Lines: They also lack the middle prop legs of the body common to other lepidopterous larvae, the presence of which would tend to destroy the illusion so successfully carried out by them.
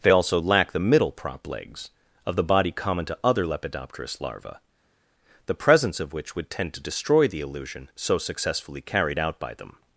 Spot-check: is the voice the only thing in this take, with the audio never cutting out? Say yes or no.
yes